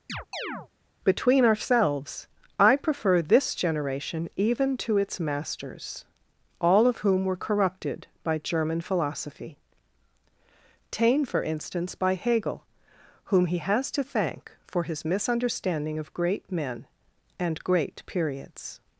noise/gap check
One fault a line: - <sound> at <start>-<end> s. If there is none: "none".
- chirp at 0.1-0.7 s